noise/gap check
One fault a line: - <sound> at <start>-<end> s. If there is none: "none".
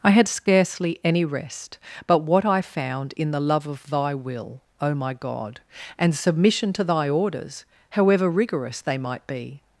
none